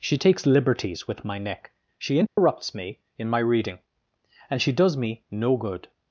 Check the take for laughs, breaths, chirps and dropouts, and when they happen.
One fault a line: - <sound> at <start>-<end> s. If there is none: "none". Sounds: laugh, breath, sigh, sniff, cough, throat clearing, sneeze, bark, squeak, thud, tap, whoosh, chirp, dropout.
- dropout at 2.3-2.4 s